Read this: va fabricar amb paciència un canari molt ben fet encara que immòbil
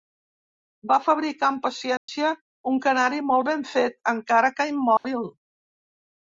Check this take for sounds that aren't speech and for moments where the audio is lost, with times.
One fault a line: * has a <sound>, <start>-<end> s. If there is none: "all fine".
* has a dropout, 2.0-2.1 s
* has a dropout, 5.0-5.0 s